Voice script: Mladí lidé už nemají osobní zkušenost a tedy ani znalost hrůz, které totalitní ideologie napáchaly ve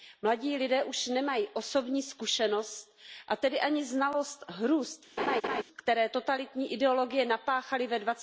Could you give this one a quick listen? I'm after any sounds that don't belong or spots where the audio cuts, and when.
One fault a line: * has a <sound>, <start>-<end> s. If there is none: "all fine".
* has a laugh, 5.2-5.6 s